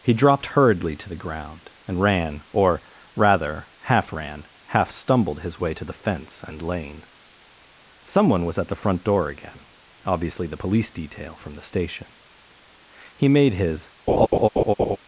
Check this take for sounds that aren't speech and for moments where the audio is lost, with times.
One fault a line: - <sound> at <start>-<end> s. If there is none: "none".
- laugh at 14.1-15.0 s